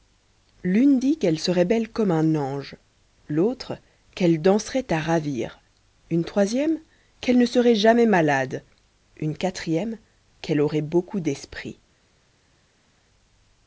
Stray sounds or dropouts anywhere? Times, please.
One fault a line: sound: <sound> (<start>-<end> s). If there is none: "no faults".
no faults